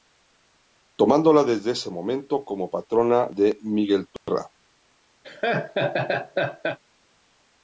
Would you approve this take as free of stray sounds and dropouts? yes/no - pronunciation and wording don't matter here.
no